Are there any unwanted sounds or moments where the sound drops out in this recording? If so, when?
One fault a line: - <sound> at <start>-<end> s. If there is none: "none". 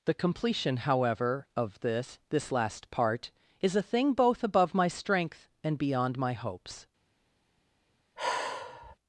- sigh at 8.2-9.0 s